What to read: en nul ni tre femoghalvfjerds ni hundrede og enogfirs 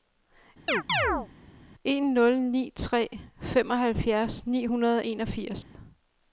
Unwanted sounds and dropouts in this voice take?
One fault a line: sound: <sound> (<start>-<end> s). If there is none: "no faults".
sound: chirp (0.7-1.3 s)
sound: dropout (5.6-5.8 s)